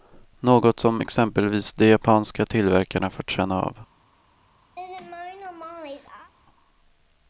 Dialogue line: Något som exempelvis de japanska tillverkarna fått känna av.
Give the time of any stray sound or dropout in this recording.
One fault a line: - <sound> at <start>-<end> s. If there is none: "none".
- laugh at 4.8-6.3 s